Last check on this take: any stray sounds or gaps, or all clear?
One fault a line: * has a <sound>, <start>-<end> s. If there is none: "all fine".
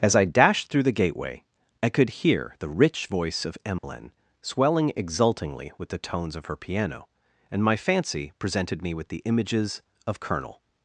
* has a dropout, 3.8-3.8 s